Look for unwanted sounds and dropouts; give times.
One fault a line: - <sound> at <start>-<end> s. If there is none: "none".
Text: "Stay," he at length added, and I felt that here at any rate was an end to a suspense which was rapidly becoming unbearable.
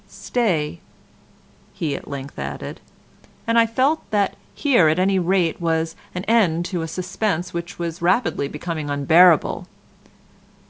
none